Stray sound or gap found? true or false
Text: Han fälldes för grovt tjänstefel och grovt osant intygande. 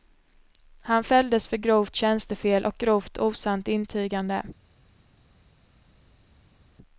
false